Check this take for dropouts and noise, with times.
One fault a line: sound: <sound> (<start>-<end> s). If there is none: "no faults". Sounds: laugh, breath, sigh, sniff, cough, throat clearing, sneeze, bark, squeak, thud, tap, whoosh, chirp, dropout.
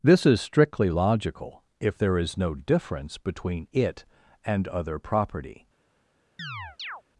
sound: chirp (6.4-7.0 s)